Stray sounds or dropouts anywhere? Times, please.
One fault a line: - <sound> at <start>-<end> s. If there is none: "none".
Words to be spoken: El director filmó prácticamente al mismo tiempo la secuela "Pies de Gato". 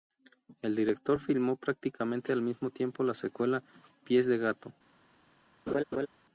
- laugh at 5.7-6.1 s